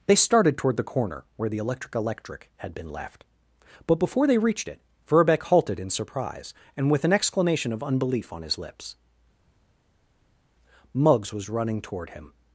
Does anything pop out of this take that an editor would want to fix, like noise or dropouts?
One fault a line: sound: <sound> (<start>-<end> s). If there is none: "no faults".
no faults